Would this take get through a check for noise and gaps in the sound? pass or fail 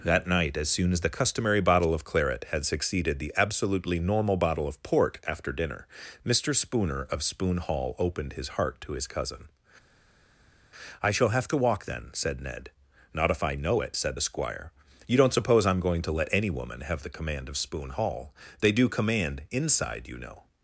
pass